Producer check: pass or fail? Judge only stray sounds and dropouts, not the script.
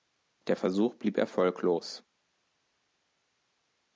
pass